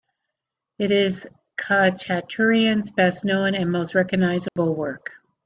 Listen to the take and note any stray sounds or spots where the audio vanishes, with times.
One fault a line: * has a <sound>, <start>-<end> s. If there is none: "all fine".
* has a dropout, 4.5-4.6 s